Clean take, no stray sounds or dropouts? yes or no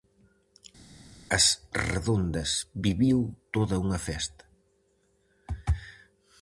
yes